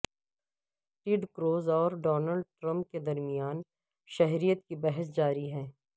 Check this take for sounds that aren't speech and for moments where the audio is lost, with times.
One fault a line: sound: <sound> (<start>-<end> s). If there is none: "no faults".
no faults